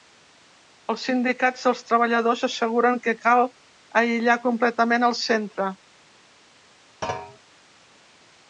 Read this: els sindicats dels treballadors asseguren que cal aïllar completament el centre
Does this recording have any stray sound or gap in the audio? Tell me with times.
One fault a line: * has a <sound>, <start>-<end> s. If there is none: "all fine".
* has a thud, 7.0-7.4 s